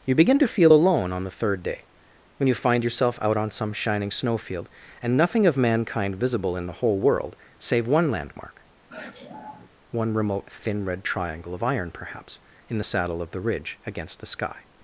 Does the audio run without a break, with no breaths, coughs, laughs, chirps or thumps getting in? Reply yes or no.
no